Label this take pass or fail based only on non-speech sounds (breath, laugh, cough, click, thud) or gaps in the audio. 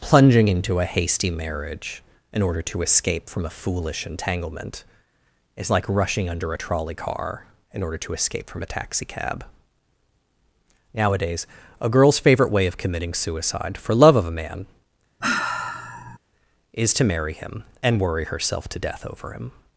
fail